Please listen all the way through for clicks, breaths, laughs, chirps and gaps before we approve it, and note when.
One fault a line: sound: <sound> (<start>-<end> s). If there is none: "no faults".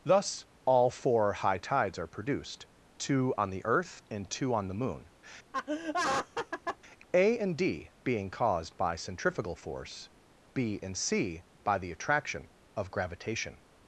sound: laugh (5.5-6.8 s)